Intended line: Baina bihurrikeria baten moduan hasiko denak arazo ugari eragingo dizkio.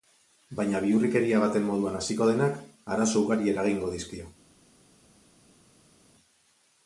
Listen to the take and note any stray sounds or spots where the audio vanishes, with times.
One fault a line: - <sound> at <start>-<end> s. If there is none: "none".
none